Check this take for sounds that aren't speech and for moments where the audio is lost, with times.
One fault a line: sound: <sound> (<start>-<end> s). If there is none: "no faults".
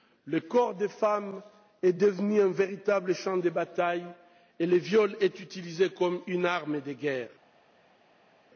no faults